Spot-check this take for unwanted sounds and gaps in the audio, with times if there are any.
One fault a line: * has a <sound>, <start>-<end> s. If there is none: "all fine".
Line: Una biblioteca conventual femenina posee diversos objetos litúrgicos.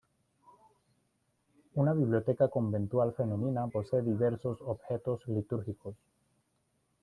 all fine